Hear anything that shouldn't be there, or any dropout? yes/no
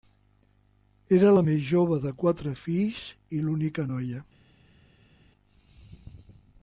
no